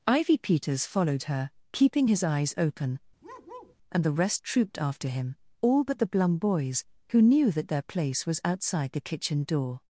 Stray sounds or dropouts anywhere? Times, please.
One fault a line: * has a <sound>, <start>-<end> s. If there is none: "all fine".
* has a bark, 3.2-3.8 s